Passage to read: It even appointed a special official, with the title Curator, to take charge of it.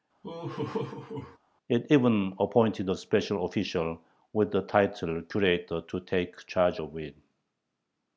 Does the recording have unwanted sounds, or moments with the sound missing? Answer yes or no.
yes